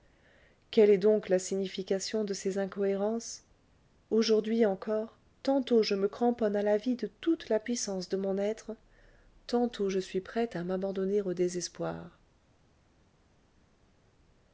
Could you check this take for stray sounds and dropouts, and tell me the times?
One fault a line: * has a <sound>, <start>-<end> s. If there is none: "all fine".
all fine